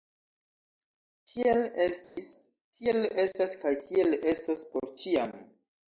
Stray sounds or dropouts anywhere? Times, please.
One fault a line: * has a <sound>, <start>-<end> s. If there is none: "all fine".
* has a dropout, 2.0-2.2 s